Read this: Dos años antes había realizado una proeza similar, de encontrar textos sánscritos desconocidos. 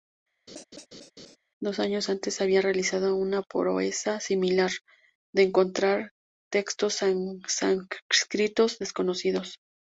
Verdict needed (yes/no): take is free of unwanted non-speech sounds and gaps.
no